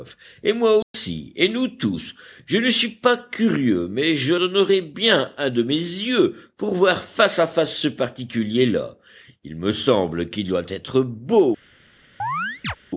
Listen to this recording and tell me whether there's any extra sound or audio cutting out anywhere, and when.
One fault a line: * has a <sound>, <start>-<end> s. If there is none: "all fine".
* has a dropout, 0.8-0.9 s
* has a chirp, 12.2-12.8 s